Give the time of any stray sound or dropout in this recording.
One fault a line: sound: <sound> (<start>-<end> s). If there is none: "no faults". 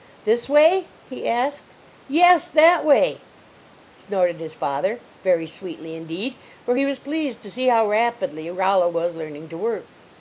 no faults